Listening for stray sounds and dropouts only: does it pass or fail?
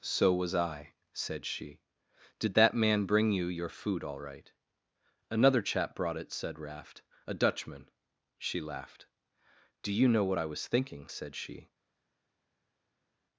pass